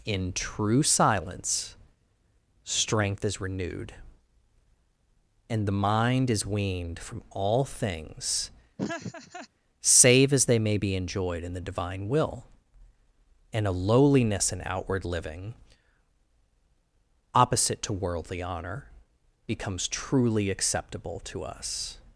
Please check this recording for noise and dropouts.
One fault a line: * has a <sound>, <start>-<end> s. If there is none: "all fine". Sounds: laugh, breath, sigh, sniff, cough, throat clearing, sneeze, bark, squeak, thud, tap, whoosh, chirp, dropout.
* has a laugh, 8.8-9.5 s